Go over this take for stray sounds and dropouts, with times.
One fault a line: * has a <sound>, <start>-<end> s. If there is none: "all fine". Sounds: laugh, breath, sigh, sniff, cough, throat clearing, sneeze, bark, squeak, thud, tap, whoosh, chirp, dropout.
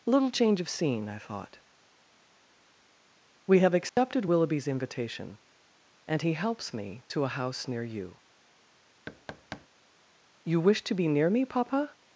* has a dropout, 3.9-4.0 s
* has a thud, 9.1-9.7 s